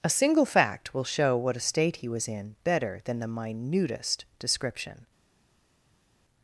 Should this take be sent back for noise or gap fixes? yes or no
no